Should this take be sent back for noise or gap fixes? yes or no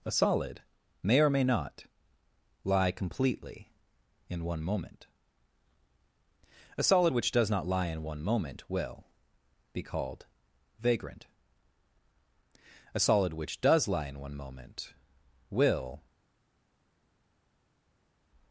no